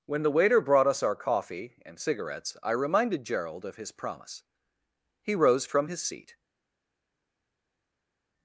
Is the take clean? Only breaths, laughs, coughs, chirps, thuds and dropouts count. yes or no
yes